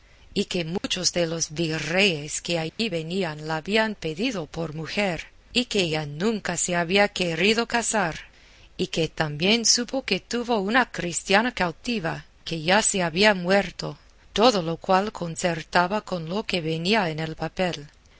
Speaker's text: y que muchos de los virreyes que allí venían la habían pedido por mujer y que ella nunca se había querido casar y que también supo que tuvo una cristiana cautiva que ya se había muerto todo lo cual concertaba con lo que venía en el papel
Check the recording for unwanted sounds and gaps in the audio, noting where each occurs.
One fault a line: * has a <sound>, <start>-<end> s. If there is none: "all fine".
* has a dropout, 0.8-0.8 s
* has a dropout, 2.7-2.8 s